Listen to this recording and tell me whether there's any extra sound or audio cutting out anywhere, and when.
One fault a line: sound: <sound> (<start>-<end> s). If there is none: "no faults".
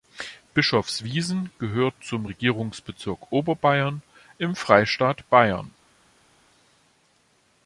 no faults